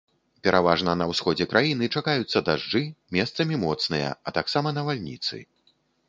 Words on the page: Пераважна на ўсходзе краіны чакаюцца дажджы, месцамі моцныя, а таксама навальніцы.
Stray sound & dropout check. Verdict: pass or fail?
pass